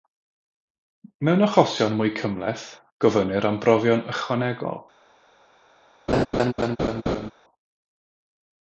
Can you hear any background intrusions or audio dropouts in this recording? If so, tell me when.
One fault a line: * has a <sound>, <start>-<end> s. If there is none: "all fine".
* has a laugh, 6.1-7.3 s